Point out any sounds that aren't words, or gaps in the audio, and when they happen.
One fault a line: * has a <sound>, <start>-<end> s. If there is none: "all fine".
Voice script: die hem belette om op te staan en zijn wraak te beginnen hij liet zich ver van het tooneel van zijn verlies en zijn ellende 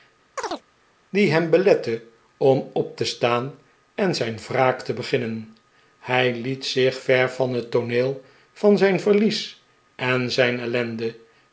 * has a chirp, 0.4-0.6 s